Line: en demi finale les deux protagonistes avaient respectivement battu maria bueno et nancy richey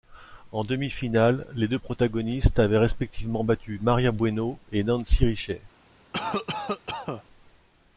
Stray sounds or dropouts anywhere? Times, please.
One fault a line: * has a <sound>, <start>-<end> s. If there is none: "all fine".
* has a cough, 6.1-7.2 s